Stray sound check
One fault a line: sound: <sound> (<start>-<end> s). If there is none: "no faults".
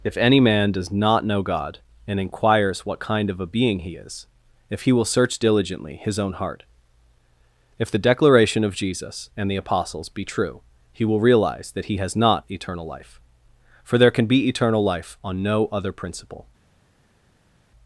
no faults